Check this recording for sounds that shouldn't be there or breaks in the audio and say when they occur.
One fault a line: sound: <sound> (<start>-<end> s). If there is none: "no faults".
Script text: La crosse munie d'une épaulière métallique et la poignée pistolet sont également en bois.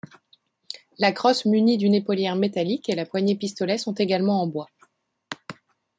no faults